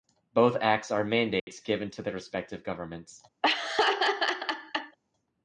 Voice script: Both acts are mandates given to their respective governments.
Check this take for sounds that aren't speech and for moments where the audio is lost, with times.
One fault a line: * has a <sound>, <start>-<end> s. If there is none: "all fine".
* has a dropout, 1.4-1.5 s
* has a laugh, 3.4-5.0 s